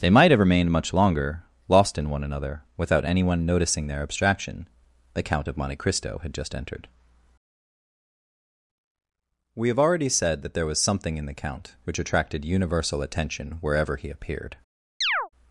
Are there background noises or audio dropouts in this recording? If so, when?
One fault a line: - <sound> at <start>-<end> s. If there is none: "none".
- chirp at 15.0-15.3 s